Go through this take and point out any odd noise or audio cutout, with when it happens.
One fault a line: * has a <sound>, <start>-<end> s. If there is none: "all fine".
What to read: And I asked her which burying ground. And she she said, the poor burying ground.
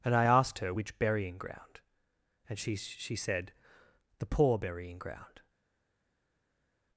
all fine